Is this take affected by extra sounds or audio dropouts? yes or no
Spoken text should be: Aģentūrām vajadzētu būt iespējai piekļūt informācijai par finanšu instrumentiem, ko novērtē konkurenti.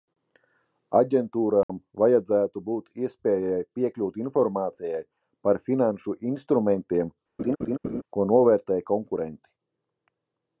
yes